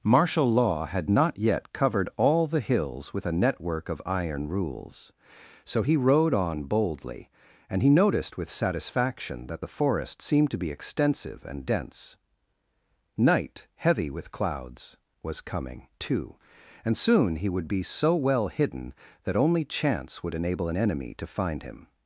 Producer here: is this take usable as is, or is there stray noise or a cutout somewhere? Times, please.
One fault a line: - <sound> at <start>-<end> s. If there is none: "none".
none